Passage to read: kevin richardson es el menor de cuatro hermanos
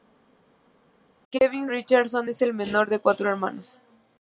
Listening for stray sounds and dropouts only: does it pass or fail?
pass